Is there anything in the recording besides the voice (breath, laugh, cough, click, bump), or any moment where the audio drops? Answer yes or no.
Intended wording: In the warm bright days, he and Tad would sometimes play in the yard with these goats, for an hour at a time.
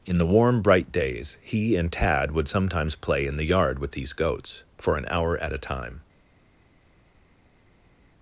no